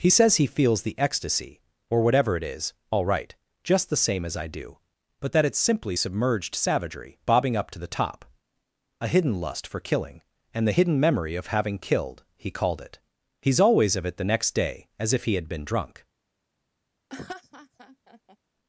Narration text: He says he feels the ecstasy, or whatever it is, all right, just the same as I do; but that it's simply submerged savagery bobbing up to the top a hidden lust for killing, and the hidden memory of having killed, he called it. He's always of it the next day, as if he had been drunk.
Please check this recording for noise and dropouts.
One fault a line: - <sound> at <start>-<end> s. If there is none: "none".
- laugh at 17.1-18.4 s